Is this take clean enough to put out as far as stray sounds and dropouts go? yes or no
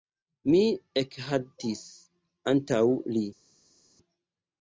yes